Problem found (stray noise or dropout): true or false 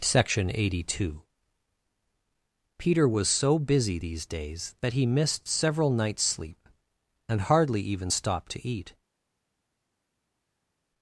false